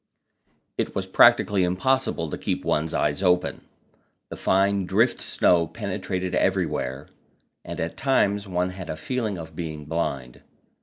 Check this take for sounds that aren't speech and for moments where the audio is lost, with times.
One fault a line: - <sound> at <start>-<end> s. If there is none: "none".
none